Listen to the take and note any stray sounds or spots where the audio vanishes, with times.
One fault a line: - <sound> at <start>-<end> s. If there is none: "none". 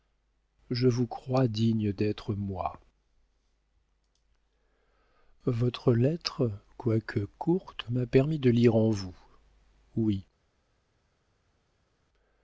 none